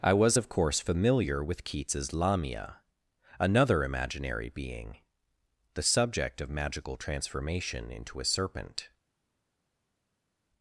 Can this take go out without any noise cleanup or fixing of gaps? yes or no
yes